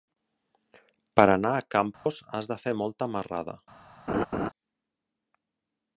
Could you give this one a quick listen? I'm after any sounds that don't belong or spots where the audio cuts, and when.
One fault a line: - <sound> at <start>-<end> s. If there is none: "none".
- dropout at 1.9-2.1 s
- laugh at 4.1-4.5 s